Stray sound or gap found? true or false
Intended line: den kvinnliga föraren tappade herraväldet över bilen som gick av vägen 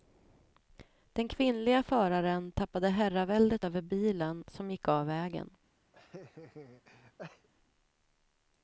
true